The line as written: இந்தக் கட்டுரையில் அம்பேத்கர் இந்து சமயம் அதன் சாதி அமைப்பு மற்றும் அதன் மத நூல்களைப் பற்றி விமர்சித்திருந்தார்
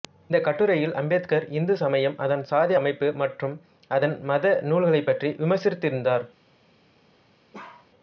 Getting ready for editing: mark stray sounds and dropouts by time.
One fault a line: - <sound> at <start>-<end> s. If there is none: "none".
- bark at 7.5-7.9 s